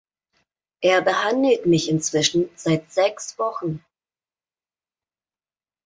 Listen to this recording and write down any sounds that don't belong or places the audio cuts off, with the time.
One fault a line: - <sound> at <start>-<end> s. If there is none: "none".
none